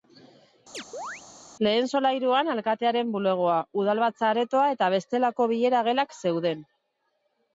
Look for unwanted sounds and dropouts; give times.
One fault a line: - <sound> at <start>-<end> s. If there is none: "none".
- chirp at 0.7-1.2 s